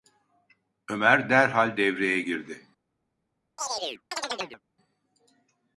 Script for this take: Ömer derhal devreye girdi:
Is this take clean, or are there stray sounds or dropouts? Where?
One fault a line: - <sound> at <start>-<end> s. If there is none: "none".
- chirp at 3.6-4.6 s